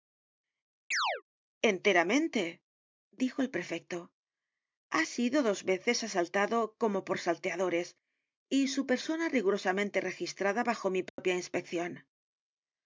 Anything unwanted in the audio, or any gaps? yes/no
yes